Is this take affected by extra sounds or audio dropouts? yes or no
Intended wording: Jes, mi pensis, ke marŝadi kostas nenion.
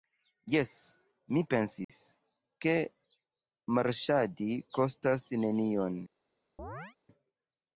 yes